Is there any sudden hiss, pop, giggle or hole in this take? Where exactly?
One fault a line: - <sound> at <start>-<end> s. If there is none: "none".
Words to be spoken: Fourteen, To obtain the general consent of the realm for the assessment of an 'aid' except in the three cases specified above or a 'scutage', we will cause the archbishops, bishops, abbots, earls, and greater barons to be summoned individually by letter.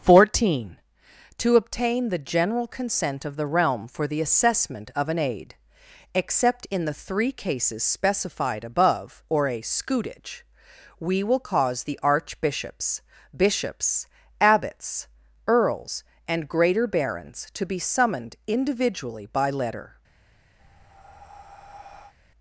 - breath at 20.6-22.1 s